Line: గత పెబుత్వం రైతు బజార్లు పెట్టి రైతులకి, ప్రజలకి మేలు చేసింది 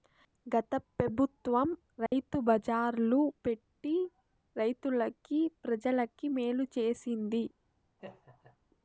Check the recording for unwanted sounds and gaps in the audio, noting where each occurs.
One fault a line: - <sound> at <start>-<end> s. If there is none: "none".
- dropout at 2.1-2.1 s
- laugh at 8.0-8.6 s